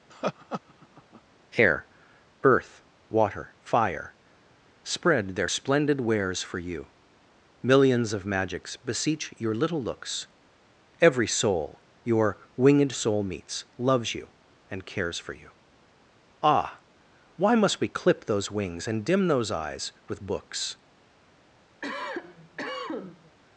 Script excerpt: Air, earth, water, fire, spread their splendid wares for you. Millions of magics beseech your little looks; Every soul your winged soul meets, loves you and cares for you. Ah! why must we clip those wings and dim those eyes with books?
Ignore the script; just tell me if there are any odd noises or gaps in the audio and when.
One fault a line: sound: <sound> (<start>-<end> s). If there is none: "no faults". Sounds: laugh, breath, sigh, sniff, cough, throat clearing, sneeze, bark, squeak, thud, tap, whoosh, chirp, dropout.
sound: laugh (0.1-1.2 s)
sound: cough (21.8-23.4 s)